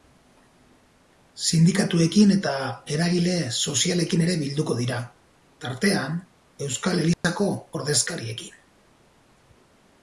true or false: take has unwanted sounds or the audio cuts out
true